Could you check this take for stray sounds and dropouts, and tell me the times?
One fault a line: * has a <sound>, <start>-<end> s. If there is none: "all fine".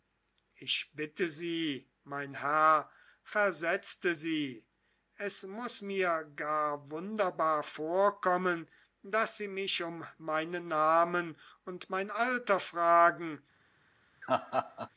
* has a laugh, 14.2-14.9 s